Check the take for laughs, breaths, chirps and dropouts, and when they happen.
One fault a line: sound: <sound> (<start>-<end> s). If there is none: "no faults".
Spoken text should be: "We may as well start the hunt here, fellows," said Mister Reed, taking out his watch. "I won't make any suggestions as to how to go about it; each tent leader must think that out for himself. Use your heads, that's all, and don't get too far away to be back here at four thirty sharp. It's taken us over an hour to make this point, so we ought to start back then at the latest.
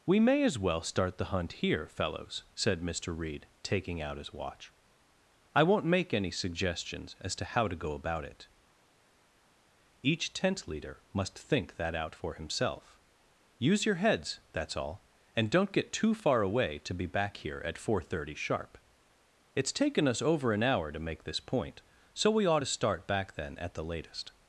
no faults